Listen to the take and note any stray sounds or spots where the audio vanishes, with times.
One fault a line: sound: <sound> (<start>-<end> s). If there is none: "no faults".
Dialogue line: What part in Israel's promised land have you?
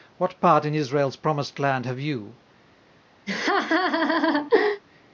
sound: laugh (3.3-4.8 s)